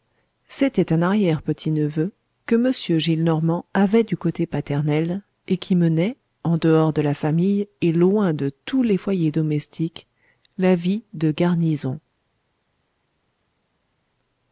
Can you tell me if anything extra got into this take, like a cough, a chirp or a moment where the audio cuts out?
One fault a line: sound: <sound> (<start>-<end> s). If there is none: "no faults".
no faults